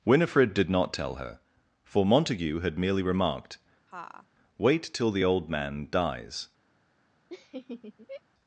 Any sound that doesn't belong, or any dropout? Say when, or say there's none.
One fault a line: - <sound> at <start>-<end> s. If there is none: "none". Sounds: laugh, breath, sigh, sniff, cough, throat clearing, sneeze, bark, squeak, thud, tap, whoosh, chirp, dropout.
- laugh at 3.9-4.3 s
- laugh at 7.3-8.2 s